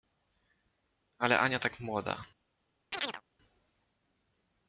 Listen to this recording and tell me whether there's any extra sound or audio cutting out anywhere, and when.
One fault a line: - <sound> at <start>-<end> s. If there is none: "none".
- chirp at 2.9-3.2 s